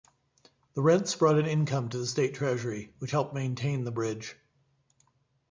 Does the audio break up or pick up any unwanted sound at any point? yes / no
no